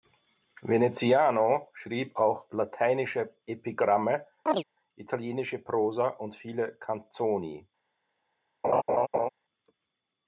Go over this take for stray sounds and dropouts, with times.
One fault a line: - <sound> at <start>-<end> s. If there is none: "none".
- chirp at 4.5-4.6 s
- laugh at 8.6-9.3 s